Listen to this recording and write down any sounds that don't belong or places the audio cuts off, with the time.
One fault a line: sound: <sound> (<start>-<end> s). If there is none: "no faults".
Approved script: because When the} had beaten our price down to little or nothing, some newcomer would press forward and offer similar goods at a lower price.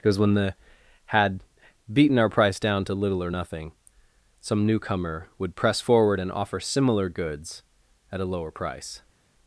no faults